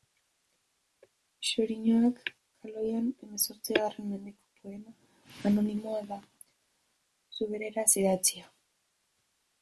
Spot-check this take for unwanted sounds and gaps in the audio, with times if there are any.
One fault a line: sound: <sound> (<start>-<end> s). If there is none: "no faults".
no faults